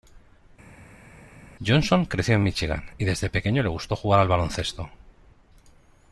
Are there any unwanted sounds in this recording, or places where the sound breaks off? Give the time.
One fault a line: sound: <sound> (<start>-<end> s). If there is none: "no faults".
no faults